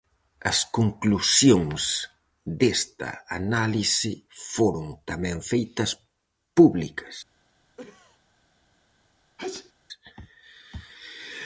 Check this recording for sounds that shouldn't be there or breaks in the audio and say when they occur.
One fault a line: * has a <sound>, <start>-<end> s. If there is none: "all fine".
* has a cough, 7.8-8.2 s
* has a sneeze, 9.4-9.7 s